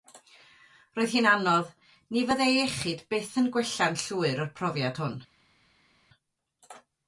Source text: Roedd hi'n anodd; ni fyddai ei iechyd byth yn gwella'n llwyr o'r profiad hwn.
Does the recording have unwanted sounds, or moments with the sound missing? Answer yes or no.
no